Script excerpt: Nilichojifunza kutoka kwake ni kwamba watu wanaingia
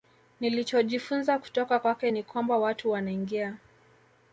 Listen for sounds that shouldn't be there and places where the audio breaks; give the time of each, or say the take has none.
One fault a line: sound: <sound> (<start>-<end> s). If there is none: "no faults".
no faults